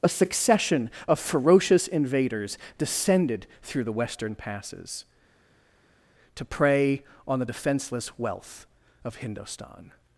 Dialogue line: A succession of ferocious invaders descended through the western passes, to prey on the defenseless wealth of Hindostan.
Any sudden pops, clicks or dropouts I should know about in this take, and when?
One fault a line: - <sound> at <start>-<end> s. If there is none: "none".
none